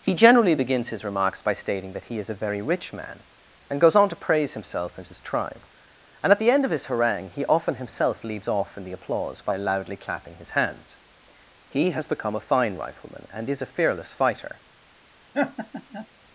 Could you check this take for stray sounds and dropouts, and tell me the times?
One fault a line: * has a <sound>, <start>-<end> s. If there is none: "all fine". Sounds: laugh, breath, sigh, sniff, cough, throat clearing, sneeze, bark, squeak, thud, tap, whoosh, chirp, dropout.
* has a laugh, 15.3-16.1 s